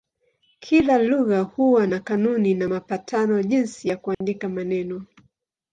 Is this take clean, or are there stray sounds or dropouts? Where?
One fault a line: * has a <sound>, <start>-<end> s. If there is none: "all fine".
* has a dropout, 4.1-4.2 s